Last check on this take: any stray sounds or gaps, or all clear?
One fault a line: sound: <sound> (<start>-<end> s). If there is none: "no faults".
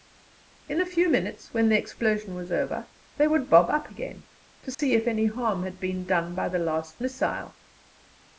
sound: dropout (4.7-4.8 s)